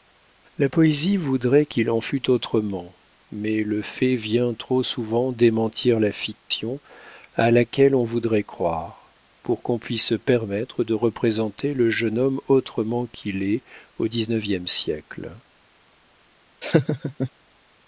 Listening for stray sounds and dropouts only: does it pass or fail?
fail